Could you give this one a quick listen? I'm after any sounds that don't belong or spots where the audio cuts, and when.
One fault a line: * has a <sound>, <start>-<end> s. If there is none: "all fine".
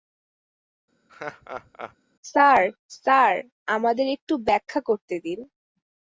* has a laugh, 1.1-2.0 s